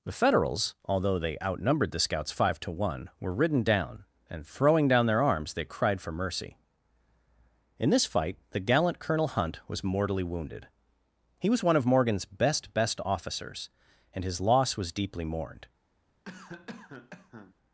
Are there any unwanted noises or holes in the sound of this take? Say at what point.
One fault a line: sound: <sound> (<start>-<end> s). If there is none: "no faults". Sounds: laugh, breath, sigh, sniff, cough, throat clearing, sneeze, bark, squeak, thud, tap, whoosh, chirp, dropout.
sound: cough (16.3-17.5 s)